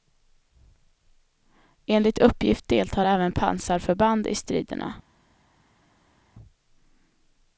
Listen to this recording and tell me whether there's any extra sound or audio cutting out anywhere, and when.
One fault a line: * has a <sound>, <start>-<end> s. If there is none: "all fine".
all fine